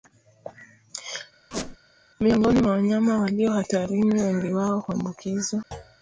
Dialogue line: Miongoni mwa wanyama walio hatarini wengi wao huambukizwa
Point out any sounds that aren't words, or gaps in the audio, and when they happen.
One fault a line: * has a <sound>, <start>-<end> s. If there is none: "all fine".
* has a squeak, 1.5-1.8 s
* has a thud, 5.7-6.0 s